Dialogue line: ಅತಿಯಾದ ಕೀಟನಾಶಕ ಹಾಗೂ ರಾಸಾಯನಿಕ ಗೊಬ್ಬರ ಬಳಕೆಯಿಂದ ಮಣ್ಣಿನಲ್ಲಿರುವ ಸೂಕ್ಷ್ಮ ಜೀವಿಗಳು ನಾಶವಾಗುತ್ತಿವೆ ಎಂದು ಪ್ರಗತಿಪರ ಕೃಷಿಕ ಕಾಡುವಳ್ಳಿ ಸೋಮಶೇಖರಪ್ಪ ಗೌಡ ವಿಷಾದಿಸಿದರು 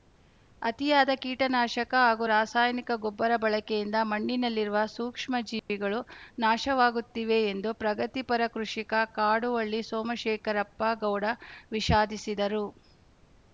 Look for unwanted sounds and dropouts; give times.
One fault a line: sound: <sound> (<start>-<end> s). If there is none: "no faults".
sound: dropout (5.6-5.7 s)